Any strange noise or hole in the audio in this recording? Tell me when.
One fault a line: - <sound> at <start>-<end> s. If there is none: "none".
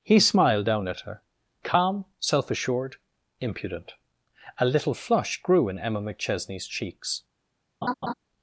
- laugh at 7.8-8.1 s